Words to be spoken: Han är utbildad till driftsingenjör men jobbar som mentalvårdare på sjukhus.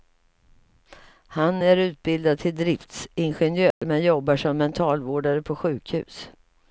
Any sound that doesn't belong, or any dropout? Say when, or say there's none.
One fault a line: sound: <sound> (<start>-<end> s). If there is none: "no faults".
sound: dropout (3.7-3.8 s)